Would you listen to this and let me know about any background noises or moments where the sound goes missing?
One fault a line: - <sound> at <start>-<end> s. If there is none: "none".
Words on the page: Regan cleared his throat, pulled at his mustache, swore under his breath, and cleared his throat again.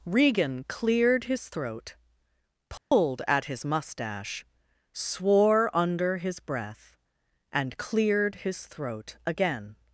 - dropout at 2.8-2.9 s